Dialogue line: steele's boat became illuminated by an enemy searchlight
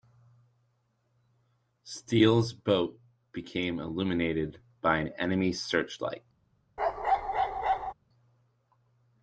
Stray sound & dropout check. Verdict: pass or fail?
fail